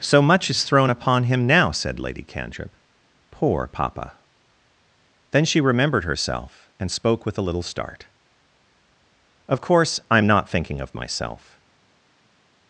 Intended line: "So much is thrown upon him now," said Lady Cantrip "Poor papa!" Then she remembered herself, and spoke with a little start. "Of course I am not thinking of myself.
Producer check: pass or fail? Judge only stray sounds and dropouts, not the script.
pass